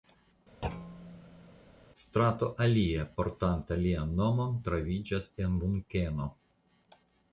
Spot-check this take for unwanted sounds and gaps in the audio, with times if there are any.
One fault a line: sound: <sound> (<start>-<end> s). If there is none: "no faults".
sound: thud (0.6-1.6 s)